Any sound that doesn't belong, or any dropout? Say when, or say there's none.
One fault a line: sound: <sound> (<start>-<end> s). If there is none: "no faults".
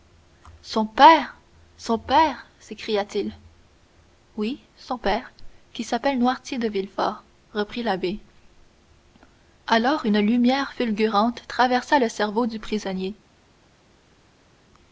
no faults